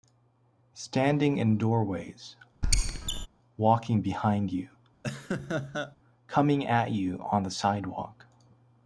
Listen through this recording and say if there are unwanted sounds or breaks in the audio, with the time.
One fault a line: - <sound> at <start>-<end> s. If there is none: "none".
- squeak at 2.6-3.3 s
- laugh at 5.0-6.0 s